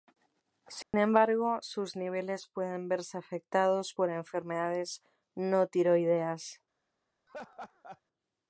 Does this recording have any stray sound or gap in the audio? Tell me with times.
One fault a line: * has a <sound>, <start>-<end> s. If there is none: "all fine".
* has a dropout, 0.8-0.9 s
* has a laugh, 7.3-8.0 s